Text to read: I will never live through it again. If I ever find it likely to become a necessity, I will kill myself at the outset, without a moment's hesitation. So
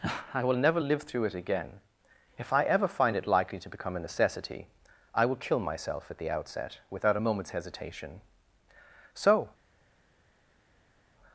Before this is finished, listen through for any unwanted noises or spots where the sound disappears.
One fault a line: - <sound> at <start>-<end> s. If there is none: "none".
none